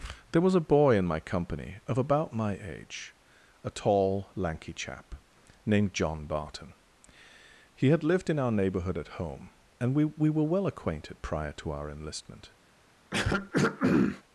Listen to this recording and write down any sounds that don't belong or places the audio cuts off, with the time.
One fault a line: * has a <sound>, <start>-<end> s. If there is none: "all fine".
* has a throat clearing, 13.1-14.2 s